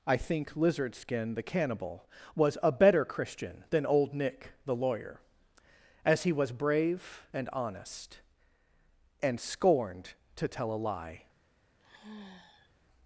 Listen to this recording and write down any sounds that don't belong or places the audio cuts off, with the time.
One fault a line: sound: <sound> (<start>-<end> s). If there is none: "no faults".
sound: sigh (11.8-12.7 s)